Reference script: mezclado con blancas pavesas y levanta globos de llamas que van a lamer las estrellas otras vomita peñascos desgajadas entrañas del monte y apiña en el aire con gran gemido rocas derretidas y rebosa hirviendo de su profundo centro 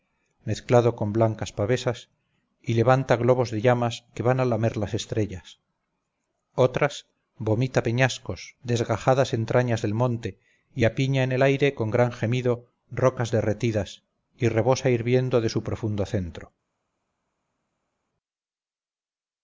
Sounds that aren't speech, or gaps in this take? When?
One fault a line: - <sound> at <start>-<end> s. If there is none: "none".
none